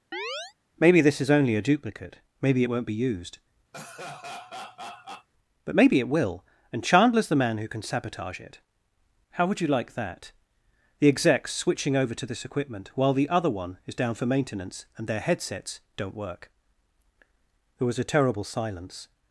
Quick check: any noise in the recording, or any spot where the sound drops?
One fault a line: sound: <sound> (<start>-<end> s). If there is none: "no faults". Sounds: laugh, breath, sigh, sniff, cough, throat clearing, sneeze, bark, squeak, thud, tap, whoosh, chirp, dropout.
sound: chirp (0.1-0.5 s)
sound: laugh (3.7-5.3 s)